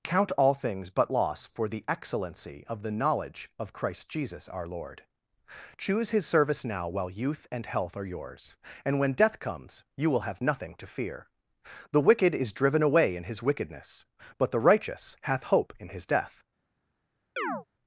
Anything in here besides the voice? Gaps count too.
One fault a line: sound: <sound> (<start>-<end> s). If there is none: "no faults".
sound: chirp (17.4-17.7 s)